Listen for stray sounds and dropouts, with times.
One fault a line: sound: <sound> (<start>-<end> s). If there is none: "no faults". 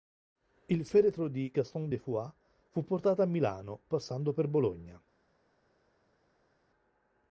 no faults